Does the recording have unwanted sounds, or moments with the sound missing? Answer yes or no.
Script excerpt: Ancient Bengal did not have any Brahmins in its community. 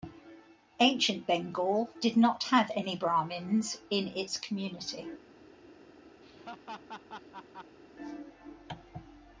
yes